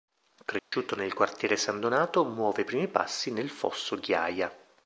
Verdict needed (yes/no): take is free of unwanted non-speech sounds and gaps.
no